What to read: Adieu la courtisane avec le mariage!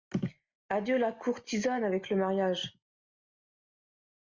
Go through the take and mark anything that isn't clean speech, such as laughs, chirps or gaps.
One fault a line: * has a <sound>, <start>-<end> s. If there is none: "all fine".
all fine